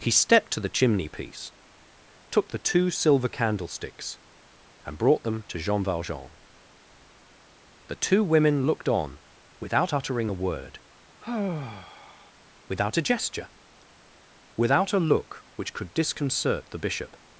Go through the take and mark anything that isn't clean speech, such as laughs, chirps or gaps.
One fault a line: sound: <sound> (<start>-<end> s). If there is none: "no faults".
sound: sigh (11.2-12.3 s)